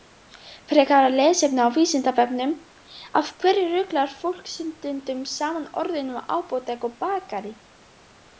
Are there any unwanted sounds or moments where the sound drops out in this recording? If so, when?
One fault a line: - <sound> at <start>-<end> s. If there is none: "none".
none